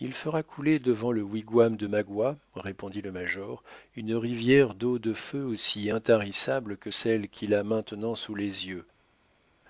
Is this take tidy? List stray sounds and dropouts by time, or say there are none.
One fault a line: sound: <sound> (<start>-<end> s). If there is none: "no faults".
no faults